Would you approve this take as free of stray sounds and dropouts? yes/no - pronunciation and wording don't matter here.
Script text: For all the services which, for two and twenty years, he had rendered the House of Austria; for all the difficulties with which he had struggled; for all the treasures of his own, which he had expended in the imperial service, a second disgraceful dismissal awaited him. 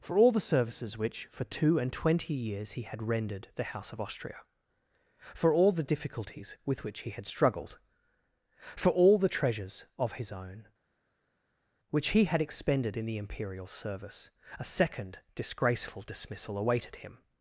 yes